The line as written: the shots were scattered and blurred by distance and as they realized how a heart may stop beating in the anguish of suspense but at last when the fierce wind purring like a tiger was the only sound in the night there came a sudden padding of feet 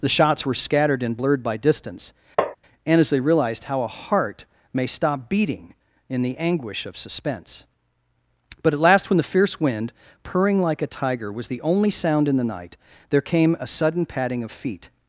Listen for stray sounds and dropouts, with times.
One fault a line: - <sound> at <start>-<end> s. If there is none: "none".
- tap at 2.4-2.6 s